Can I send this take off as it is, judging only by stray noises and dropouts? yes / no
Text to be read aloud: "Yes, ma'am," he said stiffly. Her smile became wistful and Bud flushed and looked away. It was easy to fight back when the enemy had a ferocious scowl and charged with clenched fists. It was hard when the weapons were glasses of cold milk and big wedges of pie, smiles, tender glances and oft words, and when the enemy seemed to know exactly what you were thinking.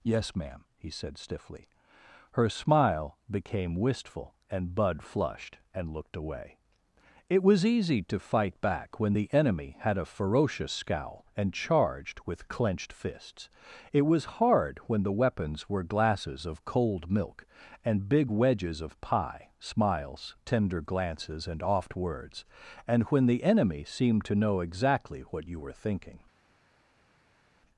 yes